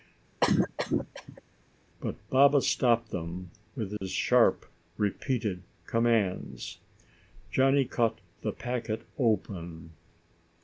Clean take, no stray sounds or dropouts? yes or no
no